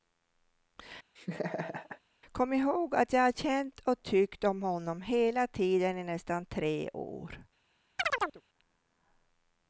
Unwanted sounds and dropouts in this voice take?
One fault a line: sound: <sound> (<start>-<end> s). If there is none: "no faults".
sound: laugh (1.2-2.0 s)
sound: chirp (8.0-8.4 s)